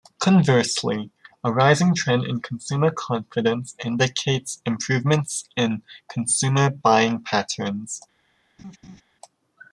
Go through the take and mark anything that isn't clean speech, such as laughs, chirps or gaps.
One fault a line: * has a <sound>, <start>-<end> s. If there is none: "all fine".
* has a laugh, 8.6-9.0 s